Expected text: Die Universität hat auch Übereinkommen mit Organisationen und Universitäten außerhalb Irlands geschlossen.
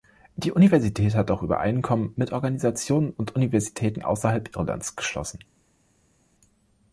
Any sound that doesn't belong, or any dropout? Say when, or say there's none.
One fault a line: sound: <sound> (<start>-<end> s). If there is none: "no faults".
no faults